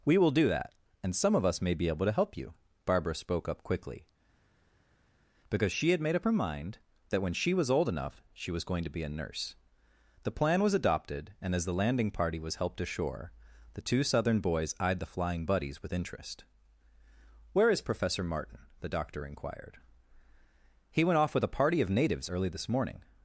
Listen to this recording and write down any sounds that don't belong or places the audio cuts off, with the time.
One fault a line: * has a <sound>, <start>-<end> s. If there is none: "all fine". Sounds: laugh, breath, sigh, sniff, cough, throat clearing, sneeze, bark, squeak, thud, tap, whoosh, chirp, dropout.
all fine